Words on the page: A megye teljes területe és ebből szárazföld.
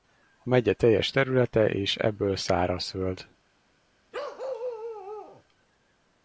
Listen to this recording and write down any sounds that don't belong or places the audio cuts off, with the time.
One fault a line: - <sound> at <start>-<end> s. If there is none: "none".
- bark at 4.1-5.4 s